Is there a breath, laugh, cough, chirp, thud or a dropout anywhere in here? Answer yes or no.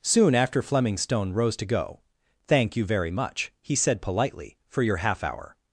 no